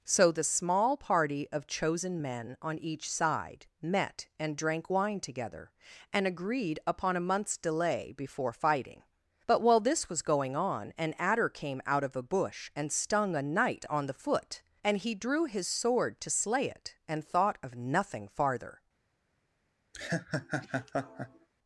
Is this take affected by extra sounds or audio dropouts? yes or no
yes